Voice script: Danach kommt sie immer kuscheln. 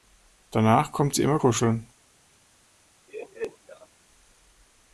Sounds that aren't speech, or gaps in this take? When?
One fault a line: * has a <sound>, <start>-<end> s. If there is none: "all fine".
* has a laugh, 3.1-3.9 s